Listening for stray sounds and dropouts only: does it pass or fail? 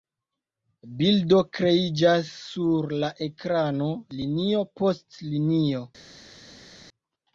pass